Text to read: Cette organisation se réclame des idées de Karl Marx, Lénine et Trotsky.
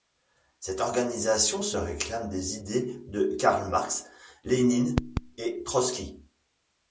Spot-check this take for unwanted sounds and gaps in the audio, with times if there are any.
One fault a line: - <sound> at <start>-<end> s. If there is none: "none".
none